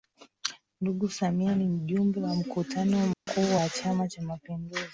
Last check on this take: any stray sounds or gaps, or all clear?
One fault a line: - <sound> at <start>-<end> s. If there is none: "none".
- dropout at 3.1-3.3 s